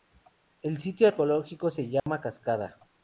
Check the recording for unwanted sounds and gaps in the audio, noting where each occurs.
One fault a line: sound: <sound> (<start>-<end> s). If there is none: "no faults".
sound: dropout (2.0-2.1 s)